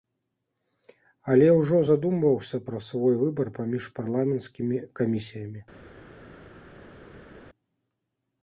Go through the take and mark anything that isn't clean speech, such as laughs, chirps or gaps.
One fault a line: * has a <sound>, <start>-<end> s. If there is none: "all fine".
all fine